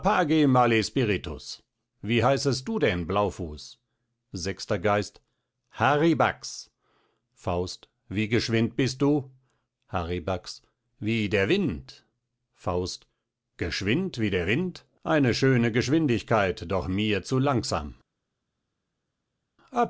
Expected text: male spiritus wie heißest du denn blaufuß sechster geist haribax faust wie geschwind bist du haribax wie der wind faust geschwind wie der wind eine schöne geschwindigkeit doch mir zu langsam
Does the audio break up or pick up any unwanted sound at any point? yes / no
no